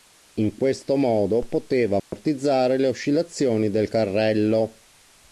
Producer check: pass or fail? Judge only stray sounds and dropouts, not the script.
fail